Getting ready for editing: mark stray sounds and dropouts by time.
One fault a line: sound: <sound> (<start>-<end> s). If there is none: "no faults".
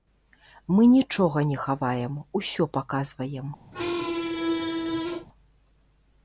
sound: squeak (3.7-5.3 s)